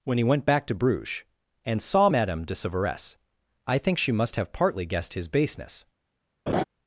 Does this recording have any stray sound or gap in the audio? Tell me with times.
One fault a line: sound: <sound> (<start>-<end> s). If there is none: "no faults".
sound: laugh (6.5-6.6 s)